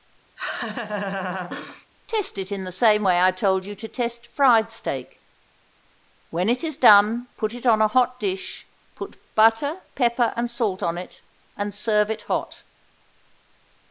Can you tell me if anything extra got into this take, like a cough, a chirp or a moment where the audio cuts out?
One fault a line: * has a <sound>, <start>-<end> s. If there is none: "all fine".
* has a laugh, 0.4-1.9 s